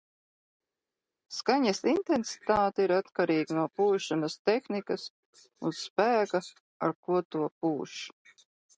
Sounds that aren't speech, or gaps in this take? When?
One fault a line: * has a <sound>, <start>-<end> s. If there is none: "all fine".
all fine